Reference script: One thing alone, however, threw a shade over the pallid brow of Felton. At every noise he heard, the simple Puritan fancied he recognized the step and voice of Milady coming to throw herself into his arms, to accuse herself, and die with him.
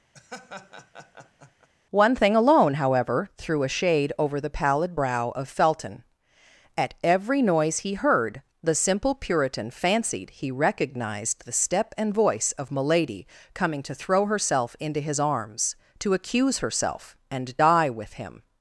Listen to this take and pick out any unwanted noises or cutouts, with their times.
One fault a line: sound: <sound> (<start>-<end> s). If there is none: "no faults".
sound: laugh (0.1-1.7 s)